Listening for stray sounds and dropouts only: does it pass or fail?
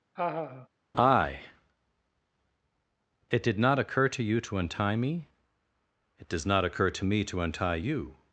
fail